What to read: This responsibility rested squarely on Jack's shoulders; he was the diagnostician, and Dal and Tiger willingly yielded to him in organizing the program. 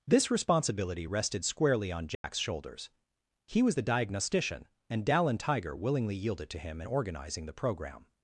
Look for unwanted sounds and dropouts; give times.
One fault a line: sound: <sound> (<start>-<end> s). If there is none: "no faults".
sound: dropout (2.1-2.2 s)